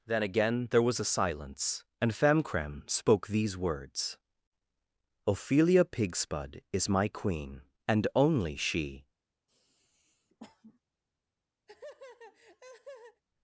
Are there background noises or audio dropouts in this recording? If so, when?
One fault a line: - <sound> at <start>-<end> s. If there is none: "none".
- sniff at 9.5-10.8 s
- laugh at 11.7-13.2 s